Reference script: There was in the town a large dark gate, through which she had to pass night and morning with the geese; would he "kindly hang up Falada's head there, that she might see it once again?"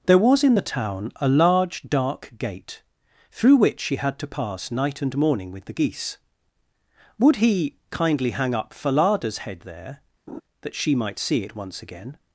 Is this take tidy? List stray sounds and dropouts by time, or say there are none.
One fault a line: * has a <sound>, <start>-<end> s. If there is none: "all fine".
* has a laugh, 10.3-10.4 s